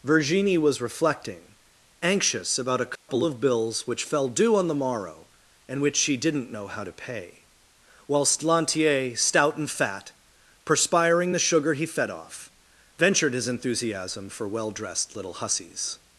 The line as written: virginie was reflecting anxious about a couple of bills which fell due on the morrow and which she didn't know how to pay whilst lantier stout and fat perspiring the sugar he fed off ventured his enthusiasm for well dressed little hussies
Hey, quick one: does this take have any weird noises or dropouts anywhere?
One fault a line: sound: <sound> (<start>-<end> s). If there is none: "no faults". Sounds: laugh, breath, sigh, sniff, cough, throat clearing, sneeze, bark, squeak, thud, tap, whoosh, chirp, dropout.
sound: dropout (3.0-3.1 s)